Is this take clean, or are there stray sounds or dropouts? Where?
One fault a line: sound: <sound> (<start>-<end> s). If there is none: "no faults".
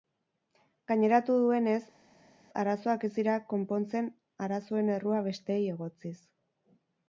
no faults